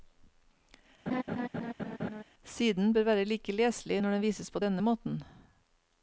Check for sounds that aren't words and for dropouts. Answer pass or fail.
fail